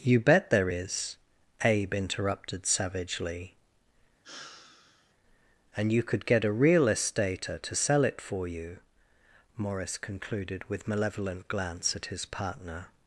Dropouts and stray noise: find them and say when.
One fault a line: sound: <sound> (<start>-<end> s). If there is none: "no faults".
sound: sigh (4.2-5.1 s)